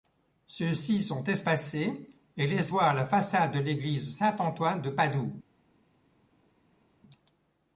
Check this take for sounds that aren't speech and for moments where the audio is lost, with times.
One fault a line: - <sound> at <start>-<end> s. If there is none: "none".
none